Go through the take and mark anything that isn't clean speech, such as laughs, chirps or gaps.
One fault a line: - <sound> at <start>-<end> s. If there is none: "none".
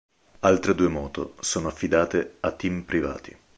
none